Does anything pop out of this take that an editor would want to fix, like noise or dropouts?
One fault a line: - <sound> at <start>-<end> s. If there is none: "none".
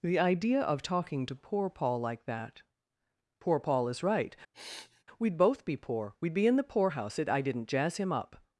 - sniff at 4.5-5.0 s